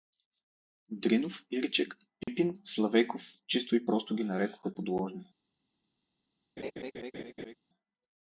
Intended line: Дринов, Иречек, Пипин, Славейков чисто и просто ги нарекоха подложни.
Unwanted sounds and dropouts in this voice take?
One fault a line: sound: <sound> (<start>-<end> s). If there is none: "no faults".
sound: dropout (2.2-2.3 s)
sound: laugh (6.6-7.6 s)